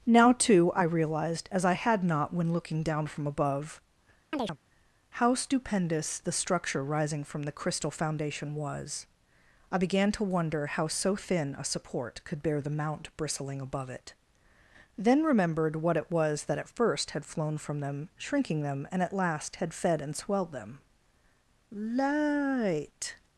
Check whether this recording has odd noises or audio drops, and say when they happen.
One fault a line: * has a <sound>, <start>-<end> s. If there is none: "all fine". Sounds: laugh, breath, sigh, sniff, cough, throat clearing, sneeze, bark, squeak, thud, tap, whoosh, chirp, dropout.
* has a chirp, 4.3-4.6 s